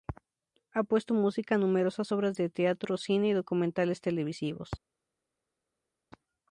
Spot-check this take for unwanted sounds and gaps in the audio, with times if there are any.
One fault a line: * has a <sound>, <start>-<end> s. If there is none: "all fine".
all fine